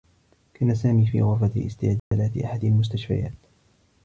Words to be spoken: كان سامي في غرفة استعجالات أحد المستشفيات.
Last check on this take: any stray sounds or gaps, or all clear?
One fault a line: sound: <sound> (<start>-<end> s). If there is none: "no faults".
sound: dropout (2.0-2.1 s)